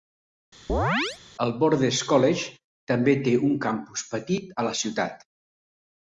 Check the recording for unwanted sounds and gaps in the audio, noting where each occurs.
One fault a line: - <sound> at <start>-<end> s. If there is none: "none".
- chirp at 0.7-1.2 s